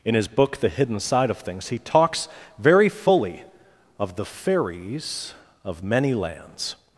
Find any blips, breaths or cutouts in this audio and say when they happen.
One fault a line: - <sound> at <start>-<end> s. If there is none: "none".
none